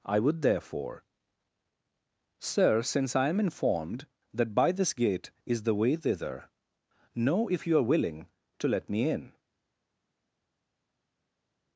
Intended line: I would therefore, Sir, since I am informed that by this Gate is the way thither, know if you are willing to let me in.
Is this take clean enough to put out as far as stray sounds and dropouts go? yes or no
yes